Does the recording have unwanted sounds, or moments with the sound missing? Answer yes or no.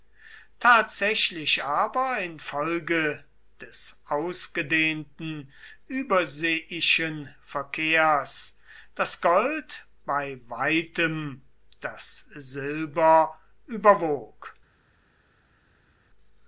no